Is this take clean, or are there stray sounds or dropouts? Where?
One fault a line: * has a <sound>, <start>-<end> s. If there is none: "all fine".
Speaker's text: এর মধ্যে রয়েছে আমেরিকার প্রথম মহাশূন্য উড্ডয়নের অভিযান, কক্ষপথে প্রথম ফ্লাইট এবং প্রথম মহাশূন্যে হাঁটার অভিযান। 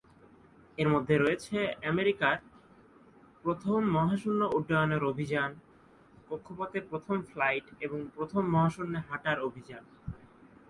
all fine